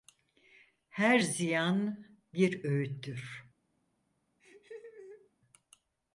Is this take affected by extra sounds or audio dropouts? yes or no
yes